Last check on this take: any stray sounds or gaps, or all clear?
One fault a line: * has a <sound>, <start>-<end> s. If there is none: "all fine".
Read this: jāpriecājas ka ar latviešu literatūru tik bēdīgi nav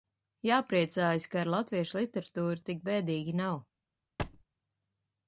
* has a thud, 4.2-4.4 s